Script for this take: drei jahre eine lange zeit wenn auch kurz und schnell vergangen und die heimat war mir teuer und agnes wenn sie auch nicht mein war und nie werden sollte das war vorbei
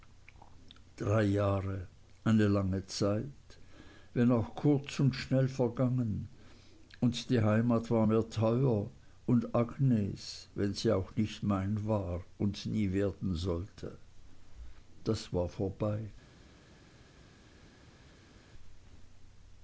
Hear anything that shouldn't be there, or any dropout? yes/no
no